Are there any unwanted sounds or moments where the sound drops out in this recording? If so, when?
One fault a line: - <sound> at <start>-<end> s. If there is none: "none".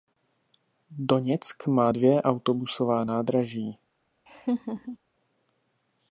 - laugh at 4.3-5.0 s